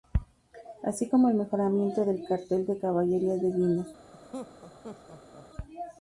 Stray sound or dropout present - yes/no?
yes